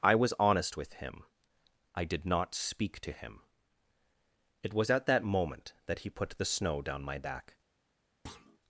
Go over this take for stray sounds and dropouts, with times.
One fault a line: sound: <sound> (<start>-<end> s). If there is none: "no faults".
sound: thud (8.3-8.6 s)